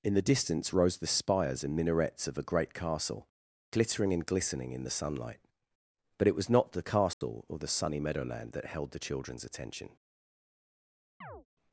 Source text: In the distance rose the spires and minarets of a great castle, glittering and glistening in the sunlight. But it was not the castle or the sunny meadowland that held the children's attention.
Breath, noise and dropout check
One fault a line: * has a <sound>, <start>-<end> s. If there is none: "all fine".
* has a dropout, 7.1-7.2 s
* has a chirp, 11.2-11.5 s